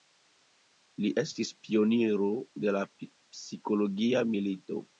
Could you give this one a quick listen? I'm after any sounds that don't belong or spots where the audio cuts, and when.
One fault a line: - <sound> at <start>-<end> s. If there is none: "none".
none